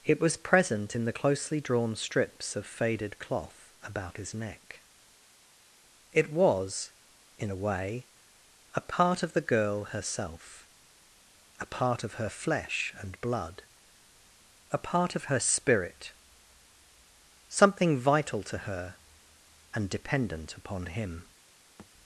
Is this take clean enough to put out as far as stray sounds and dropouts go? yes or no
no